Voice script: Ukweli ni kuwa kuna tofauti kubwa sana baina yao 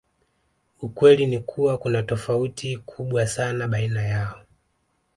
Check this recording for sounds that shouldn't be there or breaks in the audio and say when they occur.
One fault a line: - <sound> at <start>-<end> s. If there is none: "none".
none